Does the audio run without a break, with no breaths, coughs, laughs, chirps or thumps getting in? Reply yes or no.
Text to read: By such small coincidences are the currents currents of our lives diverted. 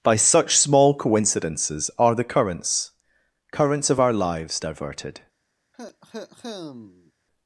no